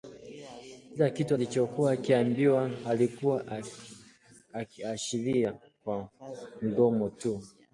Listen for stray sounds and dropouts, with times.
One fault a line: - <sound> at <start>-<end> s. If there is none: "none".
none